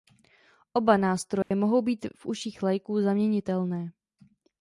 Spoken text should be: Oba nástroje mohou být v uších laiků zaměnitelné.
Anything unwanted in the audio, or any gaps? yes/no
yes